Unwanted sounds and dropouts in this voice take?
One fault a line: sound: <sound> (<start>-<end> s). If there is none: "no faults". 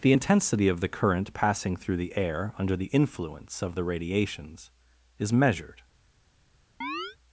sound: chirp (6.8-7.2 s)